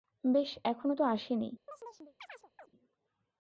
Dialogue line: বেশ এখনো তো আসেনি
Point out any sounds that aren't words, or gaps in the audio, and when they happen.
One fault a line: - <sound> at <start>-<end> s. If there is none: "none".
- chirp at 1.7-2.7 s